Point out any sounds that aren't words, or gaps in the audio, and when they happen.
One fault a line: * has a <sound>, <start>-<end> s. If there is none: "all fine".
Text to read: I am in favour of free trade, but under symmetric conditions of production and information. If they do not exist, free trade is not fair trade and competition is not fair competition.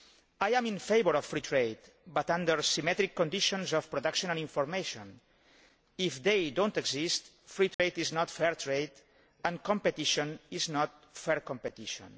* has a dropout, 7.7-7.8 s